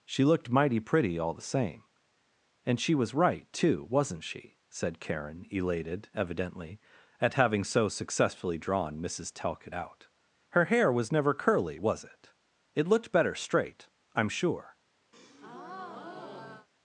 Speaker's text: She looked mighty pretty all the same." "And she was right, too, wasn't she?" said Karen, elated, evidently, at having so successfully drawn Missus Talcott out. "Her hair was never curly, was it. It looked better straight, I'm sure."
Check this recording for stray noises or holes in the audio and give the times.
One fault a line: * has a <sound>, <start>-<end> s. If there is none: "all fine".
* has a breath, 15.1-16.7 s